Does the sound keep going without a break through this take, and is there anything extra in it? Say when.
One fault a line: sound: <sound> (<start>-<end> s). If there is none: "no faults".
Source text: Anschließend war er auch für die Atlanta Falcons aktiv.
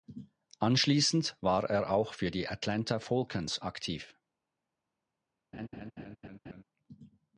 sound: laugh (5.5-6.6 s)